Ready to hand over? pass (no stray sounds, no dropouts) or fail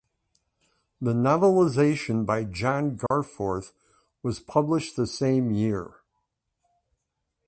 fail